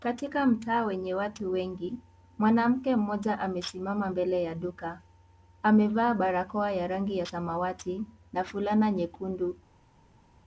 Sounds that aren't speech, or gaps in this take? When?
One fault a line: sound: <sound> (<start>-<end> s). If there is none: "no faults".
no faults